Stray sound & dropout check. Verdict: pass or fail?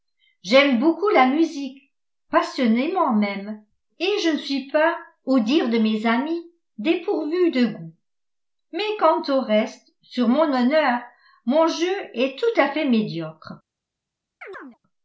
fail